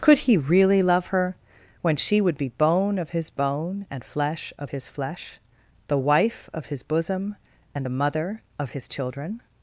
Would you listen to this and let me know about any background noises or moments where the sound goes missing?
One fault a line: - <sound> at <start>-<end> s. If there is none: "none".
none